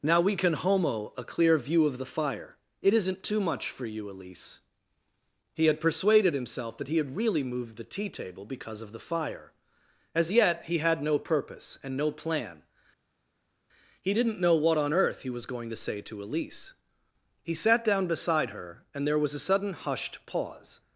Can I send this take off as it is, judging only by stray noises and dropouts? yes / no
yes